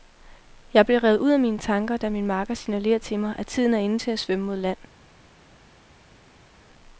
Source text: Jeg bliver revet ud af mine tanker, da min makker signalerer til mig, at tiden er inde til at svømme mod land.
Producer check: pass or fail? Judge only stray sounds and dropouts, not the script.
pass